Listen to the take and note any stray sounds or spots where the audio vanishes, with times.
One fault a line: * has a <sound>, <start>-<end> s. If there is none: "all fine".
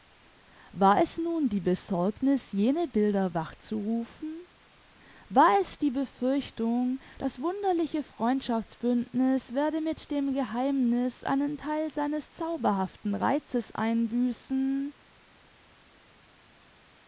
all fine